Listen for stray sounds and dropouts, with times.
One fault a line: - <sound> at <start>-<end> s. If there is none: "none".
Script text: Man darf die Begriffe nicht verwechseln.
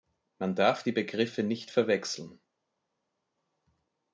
none